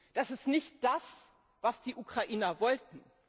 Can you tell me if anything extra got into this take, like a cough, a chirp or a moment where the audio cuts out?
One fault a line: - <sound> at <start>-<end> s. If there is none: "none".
none